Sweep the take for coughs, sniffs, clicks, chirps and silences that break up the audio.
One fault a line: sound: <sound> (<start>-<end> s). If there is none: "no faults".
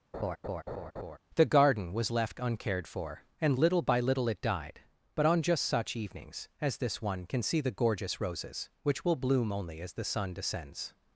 sound: laugh (0.1-1.2 s)